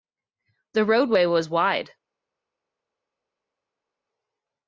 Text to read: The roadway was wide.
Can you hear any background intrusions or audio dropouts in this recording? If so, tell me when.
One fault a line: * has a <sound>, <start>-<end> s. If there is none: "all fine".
all fine